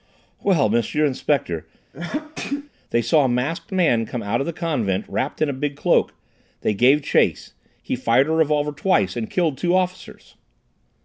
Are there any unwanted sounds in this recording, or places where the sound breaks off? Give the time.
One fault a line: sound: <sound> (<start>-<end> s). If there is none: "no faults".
sound: sneeze (1.9-2.7 s)